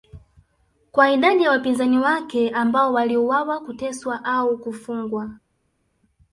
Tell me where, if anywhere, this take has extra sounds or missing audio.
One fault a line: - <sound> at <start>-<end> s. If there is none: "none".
none